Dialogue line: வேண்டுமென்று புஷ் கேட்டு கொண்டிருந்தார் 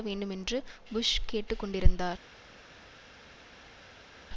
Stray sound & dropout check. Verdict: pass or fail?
pass